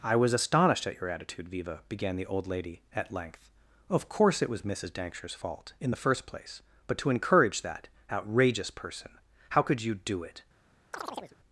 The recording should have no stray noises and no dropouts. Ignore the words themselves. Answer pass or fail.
fail